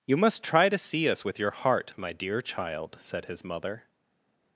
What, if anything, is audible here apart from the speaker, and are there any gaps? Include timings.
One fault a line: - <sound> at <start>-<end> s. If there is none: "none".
none